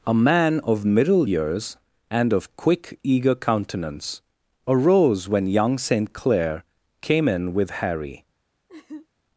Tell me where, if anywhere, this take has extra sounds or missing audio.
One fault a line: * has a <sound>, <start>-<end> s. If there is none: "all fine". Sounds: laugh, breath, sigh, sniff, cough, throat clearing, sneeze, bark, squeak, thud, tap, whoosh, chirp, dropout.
* has a laugh, 8.7-9.1 s